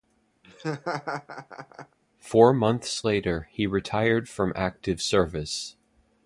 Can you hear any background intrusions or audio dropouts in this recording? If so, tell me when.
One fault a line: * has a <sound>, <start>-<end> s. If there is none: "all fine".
* has a laugh, 0.4-2.0 s